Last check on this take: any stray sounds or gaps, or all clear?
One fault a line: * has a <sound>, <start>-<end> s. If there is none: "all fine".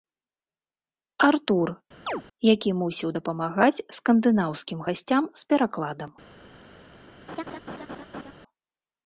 * has a chirp, 2.1-2.2 s
* has a laugh, 7.3-8.3 s